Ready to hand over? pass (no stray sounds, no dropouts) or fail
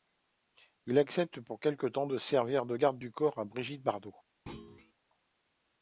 fail